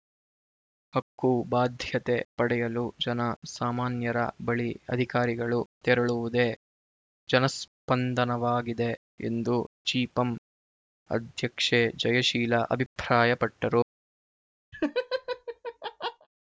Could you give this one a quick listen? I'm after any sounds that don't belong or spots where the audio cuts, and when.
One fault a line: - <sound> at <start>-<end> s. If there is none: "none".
- laugh at 14.7-16.3 s